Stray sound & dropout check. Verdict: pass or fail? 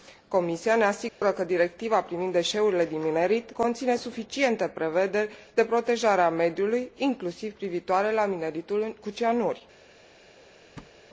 fail